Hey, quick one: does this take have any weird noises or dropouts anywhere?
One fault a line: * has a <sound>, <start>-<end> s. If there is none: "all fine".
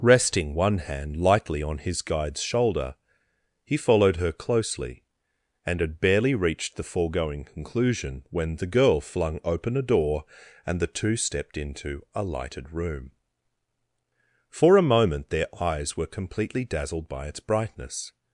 all fine